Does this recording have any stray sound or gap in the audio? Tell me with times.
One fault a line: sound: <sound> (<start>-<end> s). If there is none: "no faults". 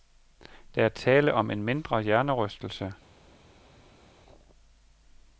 no faults